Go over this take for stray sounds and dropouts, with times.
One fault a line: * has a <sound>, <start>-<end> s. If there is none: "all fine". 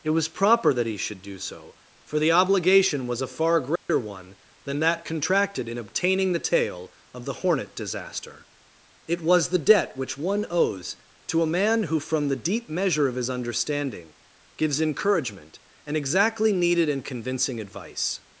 * has a dropout, 3.8-3.9 s